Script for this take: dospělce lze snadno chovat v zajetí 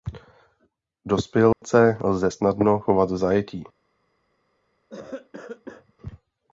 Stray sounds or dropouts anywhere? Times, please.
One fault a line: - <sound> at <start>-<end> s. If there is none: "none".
- dropout at 1.5-1.6 s
- cough at 4.9-5.9 s